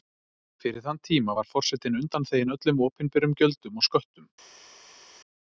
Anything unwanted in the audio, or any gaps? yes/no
no